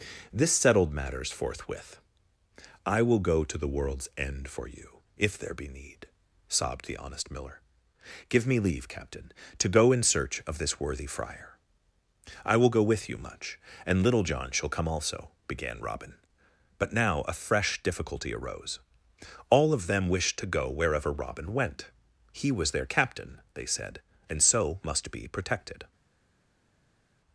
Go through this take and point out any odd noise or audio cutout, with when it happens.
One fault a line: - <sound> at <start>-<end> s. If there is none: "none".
none